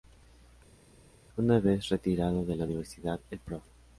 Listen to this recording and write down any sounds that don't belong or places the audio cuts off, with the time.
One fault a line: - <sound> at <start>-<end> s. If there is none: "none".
none